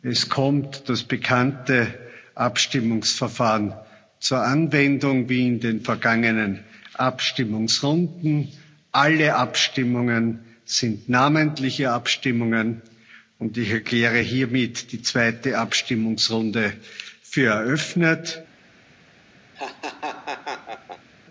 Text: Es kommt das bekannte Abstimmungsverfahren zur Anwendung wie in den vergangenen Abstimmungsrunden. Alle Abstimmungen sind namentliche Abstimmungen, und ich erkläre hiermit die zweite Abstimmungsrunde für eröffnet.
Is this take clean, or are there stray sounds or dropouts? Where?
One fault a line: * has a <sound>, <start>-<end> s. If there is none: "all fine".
* has a laugh, 19.6-21.1 s